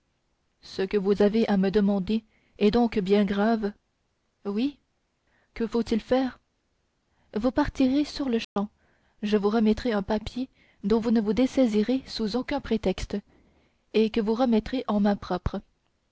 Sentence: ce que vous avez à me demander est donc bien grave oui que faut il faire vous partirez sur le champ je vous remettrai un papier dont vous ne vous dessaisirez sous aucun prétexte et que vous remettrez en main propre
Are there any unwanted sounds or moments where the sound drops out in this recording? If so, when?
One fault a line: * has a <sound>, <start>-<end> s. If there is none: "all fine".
* has a dropout, 8.4-8.6 s